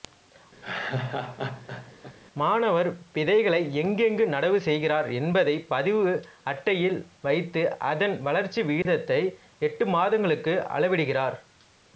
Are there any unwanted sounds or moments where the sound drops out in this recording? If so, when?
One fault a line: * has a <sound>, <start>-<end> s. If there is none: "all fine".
* has a laugh, 0.6-2.2 s
* has a dropout, 8.8-8.9 s